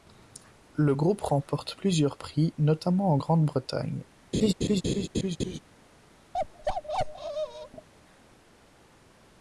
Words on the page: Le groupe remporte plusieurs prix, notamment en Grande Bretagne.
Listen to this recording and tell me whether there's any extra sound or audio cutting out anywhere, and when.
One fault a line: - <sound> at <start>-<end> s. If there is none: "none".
- laugh at 4.3-5.6 s
- bark at 6.3-7.9 s